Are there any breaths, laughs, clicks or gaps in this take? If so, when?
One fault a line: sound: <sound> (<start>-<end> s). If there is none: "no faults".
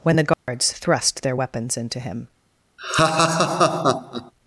sound: dropout (0.3-0.5 s)
sound: laugh (2.8-4.3 s)